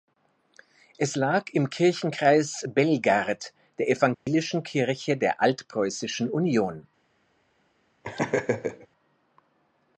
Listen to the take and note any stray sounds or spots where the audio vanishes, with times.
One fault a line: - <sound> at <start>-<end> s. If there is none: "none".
- dropout at 4.1-4.3 s
- laugh at 8.0-8.9 s